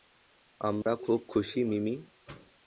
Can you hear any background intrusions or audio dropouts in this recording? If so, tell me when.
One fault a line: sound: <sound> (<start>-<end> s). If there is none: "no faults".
sound: dropout (0.8-0.9 s)